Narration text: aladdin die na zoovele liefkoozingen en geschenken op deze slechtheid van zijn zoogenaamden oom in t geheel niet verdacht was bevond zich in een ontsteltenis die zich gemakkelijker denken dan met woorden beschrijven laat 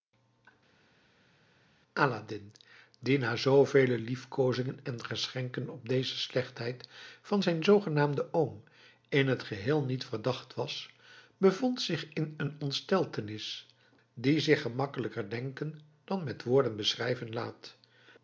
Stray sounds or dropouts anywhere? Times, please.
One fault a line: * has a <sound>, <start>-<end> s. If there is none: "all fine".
all fine